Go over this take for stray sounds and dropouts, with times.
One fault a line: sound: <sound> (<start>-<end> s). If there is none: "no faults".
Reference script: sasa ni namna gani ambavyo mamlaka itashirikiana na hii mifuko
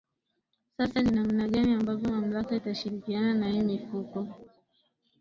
no faults